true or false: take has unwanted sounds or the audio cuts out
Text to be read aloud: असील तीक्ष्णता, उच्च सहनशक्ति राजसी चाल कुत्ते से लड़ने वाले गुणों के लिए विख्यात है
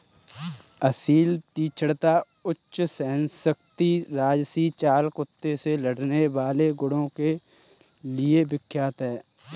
false